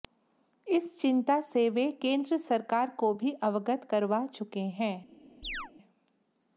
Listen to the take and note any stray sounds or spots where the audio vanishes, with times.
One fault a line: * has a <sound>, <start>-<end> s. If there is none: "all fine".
* has a chirp, 5.4-5.7 s